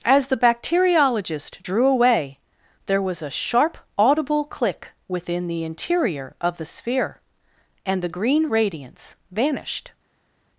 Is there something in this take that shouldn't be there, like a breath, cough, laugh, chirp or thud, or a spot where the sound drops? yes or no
no